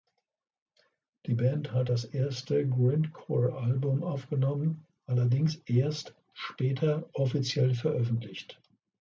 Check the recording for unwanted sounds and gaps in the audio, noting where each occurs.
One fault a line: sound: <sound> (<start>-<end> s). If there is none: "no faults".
no faults